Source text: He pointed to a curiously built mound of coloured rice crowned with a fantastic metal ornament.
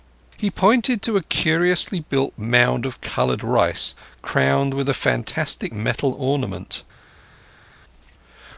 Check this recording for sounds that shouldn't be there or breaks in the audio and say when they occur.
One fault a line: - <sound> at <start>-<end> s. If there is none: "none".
none